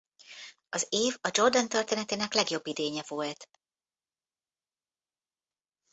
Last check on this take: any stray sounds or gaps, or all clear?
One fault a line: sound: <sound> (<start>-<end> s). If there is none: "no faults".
no faults